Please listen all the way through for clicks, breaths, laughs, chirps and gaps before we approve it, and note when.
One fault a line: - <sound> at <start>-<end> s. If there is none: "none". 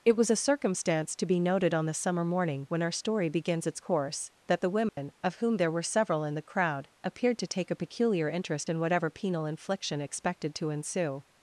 - dropout at 4.9-5.0 s